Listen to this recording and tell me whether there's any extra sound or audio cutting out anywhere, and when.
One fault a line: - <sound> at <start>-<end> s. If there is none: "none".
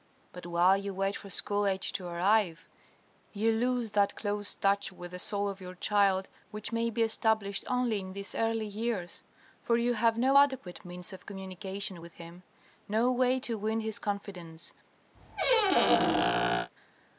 - squeak at 15.1-16.7 s